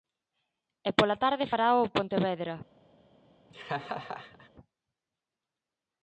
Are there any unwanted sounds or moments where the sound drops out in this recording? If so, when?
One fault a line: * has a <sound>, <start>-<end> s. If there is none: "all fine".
* has a laugh, 3.5-4.5 s